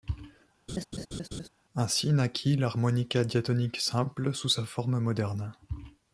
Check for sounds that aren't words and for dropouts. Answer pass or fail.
fail